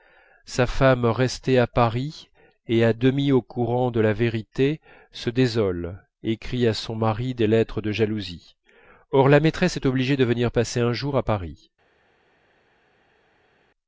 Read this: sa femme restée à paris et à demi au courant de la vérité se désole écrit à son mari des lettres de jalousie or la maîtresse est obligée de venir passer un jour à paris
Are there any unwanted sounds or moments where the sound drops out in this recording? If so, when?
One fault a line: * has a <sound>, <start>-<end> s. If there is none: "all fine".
all fine